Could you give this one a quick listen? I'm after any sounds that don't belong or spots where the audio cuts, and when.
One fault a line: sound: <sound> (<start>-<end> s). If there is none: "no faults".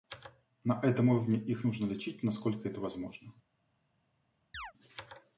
sound: chirp (4.5-4.7 s)